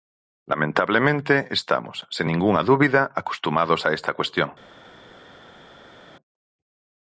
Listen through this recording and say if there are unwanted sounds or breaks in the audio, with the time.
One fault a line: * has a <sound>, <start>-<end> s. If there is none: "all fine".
all fine